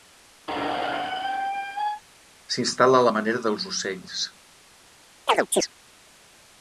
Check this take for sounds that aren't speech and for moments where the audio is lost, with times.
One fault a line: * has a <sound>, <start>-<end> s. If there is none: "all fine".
* has a squeak, 0.5-2.0 s
* has a chirp, 5.3-5.7 s